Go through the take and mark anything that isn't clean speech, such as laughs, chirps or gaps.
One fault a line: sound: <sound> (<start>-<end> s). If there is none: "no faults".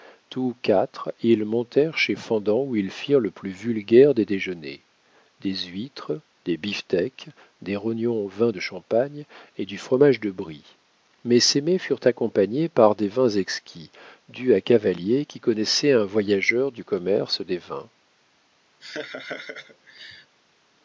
sound: laugh (18.8-20.4 s)